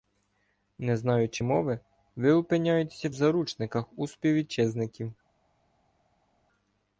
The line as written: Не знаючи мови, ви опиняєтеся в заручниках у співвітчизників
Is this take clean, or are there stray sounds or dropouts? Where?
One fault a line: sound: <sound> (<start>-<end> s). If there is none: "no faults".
no faults